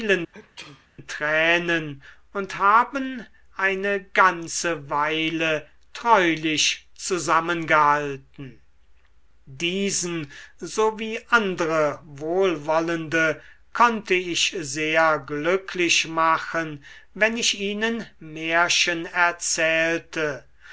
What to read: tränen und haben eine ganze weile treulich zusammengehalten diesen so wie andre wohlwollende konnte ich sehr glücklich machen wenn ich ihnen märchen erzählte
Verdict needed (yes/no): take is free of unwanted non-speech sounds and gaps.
no